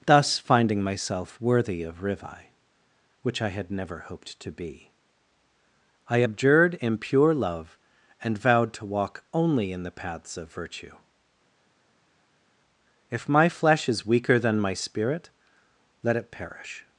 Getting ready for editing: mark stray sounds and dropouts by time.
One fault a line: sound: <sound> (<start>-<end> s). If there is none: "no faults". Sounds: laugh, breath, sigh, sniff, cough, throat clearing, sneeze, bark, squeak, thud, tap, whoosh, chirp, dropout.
no faults